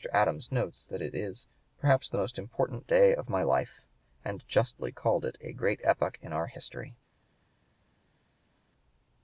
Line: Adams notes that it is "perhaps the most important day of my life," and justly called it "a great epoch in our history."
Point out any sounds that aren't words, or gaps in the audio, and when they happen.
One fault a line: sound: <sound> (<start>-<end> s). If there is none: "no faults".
no faults